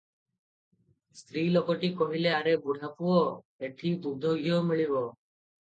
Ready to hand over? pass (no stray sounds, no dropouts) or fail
pass